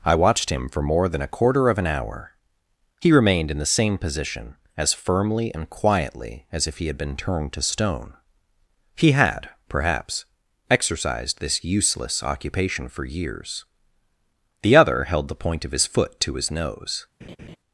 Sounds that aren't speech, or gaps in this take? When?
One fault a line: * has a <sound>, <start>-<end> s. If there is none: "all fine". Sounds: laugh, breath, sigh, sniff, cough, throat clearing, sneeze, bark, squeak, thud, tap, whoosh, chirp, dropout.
* has a laugh, 17.2-17.6 s